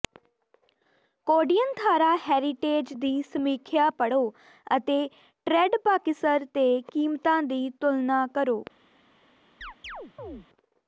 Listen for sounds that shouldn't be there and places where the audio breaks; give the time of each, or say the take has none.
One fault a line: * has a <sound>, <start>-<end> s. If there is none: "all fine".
* has a chirp, 9.6-10.5 s